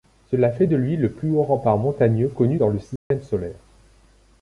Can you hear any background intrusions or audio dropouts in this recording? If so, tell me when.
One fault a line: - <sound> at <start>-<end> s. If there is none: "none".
- dropout at 3.0-3.1 s